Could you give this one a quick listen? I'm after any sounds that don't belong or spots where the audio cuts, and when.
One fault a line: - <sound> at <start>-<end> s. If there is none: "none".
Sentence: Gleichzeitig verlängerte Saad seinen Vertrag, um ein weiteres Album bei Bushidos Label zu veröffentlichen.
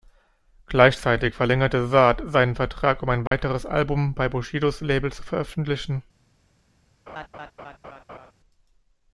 - dropout at 3.3-3.3 s
- laugh at 7.1-8.3 s